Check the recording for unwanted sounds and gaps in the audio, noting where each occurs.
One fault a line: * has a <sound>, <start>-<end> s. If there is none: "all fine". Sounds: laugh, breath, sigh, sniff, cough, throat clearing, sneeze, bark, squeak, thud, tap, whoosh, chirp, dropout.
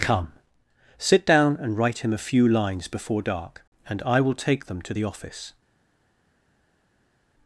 all fine